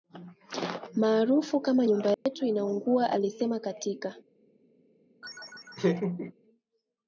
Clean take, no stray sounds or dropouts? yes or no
no